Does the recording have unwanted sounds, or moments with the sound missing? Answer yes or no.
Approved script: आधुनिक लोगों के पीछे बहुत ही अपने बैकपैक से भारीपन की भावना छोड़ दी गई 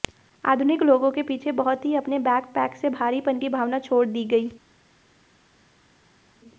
no